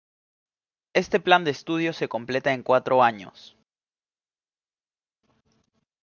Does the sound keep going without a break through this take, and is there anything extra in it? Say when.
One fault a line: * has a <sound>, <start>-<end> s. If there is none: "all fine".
all fine